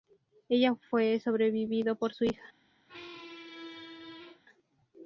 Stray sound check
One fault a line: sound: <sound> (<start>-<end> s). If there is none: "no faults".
sound: squeak (2.9-4.4 s)